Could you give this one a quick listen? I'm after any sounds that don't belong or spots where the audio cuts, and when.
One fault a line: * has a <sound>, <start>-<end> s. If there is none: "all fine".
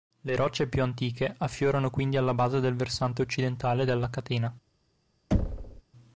* has a thud, 5.3-5.8 s